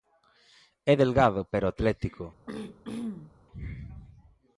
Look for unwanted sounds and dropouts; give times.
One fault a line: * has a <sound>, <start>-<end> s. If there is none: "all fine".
* has a throat clearing, 2.5-3.3 s